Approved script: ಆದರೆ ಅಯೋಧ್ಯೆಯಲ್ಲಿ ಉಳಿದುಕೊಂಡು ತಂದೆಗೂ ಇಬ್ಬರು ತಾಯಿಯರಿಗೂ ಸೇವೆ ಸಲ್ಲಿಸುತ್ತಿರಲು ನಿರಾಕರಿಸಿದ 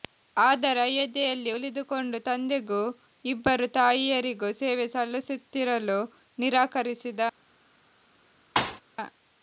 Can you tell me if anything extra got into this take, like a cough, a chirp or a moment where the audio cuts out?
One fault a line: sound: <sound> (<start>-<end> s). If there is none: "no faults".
sound: thud (8.6-8.8 s)